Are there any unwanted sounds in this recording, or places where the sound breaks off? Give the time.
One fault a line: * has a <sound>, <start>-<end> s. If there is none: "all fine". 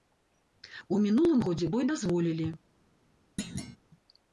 * has a thud, 3.4-3.8 s